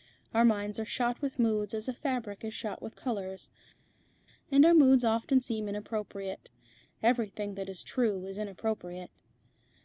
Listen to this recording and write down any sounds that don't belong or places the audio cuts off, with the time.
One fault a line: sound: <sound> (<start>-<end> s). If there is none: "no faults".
no faults